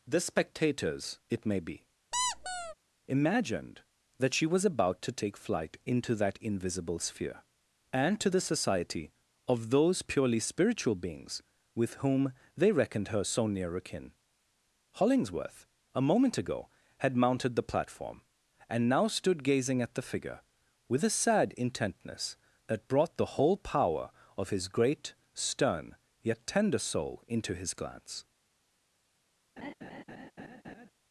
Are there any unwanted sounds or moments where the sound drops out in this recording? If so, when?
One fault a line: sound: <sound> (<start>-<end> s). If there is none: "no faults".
sound: squeak (2.1-2.7 s)
sound: laugh (29.6-30.9 s)